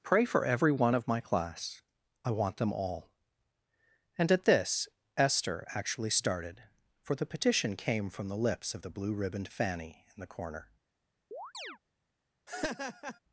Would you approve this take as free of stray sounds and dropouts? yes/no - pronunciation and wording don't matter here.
no